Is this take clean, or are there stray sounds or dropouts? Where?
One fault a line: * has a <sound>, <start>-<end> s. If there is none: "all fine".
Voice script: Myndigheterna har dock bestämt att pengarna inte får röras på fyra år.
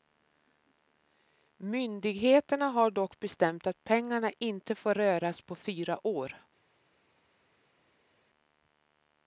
all fine